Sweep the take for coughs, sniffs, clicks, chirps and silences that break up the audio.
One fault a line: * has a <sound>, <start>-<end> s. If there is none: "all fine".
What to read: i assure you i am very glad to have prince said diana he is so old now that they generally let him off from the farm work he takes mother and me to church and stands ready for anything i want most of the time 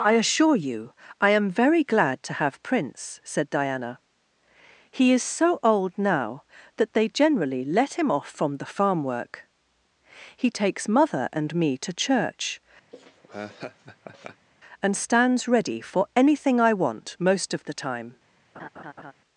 * has a laugh, 12.9-14.5 s
* has a laugh, 18.5-19.1 s